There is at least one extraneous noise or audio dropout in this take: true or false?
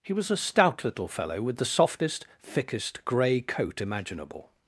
false